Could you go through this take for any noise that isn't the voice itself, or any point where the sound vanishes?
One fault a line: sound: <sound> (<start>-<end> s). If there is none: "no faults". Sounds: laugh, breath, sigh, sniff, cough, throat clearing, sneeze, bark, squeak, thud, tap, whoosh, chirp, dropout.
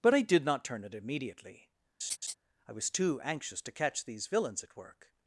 sound: laugh (2.0-2.3 s)